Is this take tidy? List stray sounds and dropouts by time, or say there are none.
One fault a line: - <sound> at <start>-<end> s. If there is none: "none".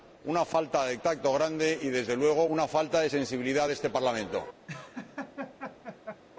- laugh at 4.7-6.2 s